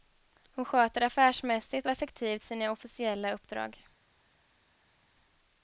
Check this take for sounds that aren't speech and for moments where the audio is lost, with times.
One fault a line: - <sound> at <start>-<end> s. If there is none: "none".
none